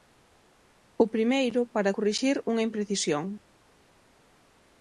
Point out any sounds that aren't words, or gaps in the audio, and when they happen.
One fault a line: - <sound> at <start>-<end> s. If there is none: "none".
none